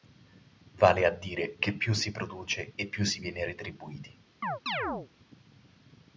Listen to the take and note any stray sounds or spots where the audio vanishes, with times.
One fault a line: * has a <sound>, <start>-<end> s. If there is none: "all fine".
* has a chirp, 4.4-5.1 s